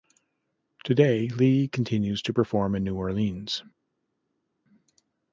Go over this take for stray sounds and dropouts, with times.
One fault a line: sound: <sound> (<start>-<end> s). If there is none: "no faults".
no faults